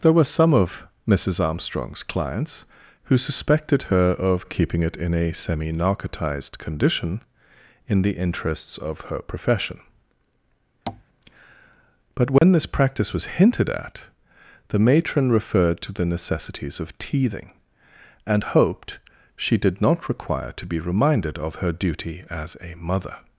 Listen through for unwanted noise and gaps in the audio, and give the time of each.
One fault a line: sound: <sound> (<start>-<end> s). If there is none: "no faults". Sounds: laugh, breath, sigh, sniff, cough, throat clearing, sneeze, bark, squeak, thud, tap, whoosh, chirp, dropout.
sound: tap (10.9-11.0 s)
sound: dropout (12.4-12.4 s)